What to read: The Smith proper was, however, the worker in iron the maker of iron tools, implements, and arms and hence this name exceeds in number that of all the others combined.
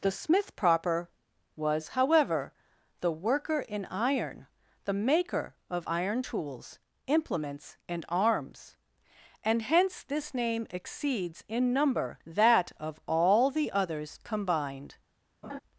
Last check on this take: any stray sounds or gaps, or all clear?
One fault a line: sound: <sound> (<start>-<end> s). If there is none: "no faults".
sound: laugh (15.4-15.6 s)